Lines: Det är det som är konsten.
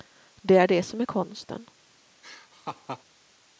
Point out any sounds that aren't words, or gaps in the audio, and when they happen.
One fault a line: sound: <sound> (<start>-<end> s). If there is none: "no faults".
sound: laugh (2.2-3.0 s)